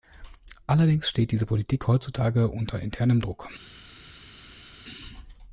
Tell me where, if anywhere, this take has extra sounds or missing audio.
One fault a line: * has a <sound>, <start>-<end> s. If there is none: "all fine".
all fine